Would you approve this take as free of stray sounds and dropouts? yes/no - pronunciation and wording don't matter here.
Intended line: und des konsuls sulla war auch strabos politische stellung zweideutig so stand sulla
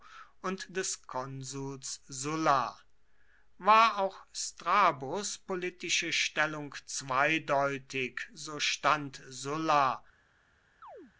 no